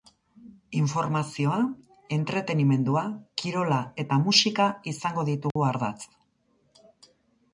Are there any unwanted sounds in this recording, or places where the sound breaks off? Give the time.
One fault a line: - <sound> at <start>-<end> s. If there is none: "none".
- dropout at 5.5-5.6 s